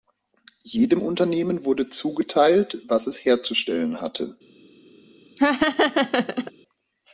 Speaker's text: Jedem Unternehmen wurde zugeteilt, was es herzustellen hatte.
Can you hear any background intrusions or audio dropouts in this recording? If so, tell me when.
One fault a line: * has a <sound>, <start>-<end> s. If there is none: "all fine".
* has a laugh, 5.4-6.5 s